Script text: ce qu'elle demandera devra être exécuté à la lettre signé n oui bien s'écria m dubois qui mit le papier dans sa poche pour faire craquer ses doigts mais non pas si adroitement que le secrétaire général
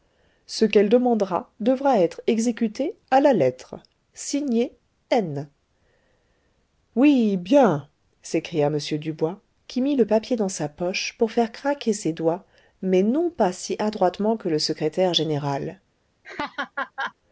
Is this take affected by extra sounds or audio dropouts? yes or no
yes